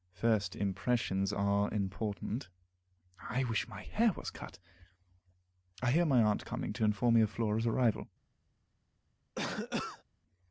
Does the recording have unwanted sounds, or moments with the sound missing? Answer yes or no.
yes